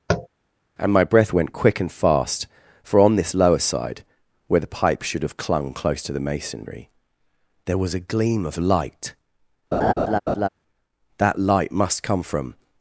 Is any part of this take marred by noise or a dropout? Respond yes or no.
yes